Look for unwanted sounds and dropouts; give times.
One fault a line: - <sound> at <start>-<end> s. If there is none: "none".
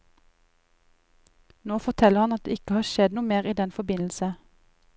none